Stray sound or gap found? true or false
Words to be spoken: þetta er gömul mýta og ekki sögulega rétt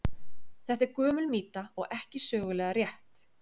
false